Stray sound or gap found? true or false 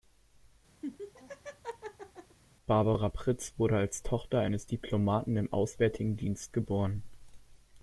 true